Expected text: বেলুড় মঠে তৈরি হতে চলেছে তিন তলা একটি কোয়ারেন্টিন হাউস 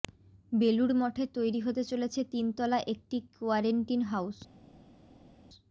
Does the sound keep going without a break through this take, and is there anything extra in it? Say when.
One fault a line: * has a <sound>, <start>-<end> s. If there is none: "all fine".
all fine